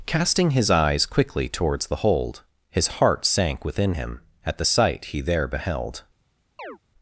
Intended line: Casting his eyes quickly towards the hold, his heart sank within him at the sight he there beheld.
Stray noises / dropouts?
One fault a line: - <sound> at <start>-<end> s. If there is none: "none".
- chirp at 6.6-6.8 s